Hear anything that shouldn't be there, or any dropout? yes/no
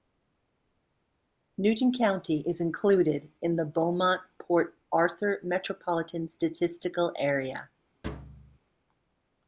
yes